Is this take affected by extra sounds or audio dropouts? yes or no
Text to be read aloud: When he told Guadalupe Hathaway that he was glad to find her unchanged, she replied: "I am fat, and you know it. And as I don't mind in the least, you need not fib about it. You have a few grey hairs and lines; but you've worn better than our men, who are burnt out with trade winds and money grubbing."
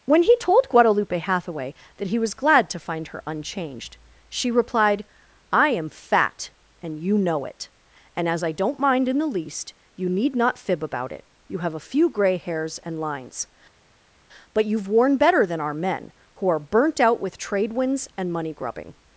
no